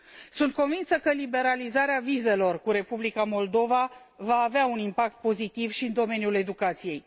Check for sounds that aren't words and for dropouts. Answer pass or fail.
pass